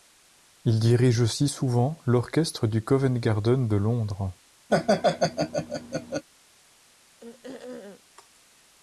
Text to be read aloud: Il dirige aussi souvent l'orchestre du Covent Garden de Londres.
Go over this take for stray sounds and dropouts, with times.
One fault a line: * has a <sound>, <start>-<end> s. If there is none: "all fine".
* has a laugh, 4.7-6.2 s
* has a throat clearing, 7.2-8.0 s